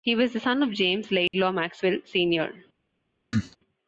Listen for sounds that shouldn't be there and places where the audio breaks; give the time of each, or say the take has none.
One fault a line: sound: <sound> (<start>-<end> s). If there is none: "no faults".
sound: dropout (1.3-1.3 s)
sound: cough (3.3-3.6 s)